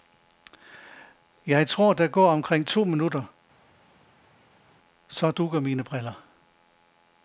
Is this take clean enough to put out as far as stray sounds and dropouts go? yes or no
yes